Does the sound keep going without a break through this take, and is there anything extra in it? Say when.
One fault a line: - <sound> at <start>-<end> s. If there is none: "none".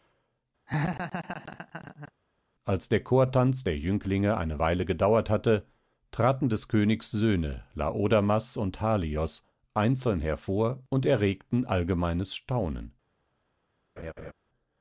- laugh at 0.7-2.1 s
- laugh at 14.0-14.3 s